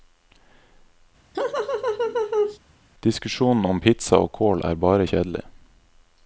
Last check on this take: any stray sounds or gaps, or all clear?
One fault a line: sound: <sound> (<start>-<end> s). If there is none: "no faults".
sound: laugh (1.3-2.6 s)